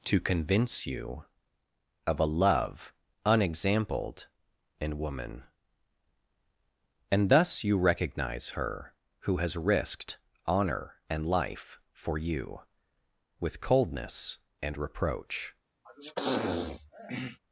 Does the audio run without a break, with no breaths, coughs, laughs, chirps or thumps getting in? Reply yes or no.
no